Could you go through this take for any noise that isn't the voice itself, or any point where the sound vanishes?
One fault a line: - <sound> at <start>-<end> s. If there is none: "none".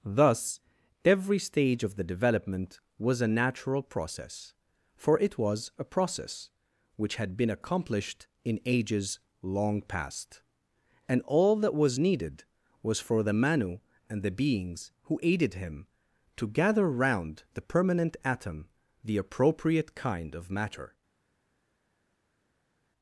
none